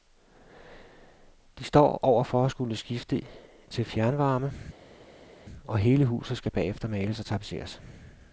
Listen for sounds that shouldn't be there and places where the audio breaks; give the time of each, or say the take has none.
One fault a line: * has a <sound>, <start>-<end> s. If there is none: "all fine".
all fine